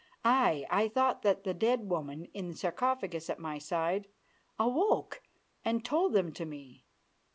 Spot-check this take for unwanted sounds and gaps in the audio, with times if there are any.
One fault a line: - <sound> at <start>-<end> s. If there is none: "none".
none